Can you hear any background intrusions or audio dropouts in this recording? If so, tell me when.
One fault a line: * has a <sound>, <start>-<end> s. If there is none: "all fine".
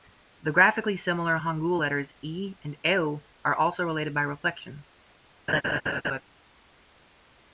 * has a laugh, 5.5-6.2 s